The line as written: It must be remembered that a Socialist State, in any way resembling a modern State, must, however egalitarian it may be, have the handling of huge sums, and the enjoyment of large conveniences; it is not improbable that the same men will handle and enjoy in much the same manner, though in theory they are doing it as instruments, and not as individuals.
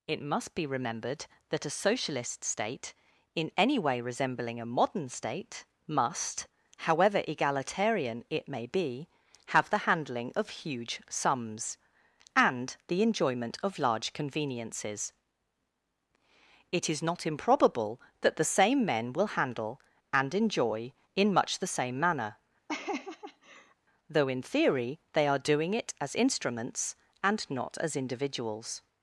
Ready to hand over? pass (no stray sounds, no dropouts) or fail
fail